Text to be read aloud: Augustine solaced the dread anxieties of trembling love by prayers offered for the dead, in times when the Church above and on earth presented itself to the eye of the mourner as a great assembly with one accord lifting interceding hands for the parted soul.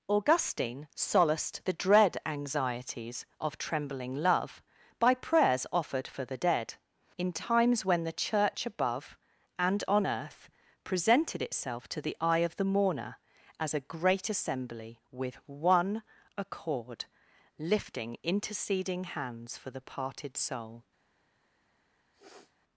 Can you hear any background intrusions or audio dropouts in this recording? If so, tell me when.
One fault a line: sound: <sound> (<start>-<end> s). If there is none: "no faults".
sound: sniff (22.1-22.6 s)